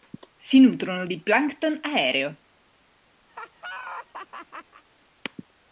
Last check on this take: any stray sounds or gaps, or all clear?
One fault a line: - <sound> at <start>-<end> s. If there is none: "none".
- laugh at 3.3-4.8 s